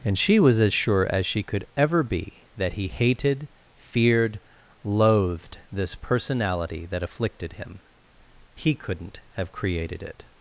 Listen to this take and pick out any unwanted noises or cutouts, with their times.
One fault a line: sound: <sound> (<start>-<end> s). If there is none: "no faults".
no faults